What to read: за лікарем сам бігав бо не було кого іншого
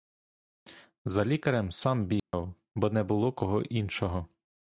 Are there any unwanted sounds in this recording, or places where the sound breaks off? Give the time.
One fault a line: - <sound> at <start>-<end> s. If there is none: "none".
- dropout at 2.2-2.3 s